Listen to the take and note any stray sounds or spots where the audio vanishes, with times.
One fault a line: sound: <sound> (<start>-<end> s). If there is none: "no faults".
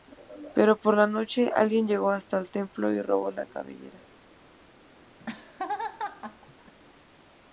sound: laugh (5.2-6.7 s)